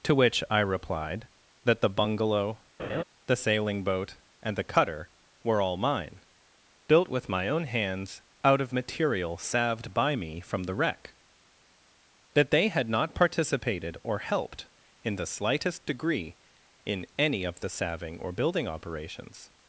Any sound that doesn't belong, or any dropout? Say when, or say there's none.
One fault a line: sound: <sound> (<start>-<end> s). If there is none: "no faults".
sound: laugh (2.8-3.0 s)